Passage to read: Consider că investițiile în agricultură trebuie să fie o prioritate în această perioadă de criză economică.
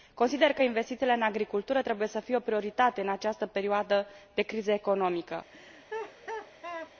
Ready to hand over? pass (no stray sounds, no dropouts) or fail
fail